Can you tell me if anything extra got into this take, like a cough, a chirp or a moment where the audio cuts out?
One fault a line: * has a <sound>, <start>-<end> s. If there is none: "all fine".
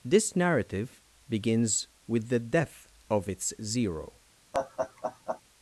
* has a laugh, 4.5-5.4 s